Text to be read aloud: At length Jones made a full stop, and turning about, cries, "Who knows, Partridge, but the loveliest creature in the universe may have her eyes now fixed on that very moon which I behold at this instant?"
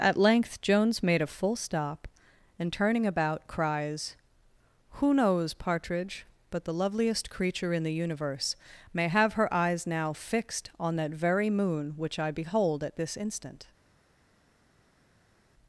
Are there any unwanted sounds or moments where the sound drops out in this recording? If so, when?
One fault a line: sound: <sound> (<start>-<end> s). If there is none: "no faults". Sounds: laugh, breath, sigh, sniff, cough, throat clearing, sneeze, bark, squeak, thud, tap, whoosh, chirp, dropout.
no faults